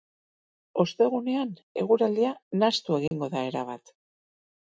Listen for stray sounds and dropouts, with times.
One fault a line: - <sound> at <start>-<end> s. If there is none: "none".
- dropout at 3.1-3.1 s